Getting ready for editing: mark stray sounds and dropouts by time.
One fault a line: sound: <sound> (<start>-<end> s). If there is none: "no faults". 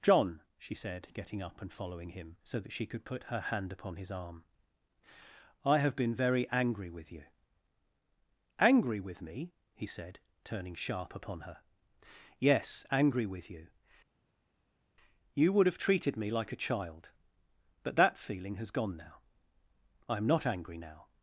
no faults